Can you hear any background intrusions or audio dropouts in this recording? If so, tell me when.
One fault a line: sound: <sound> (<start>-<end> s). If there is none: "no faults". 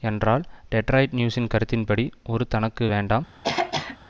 sound: throat clearing (3.4-4.0 s)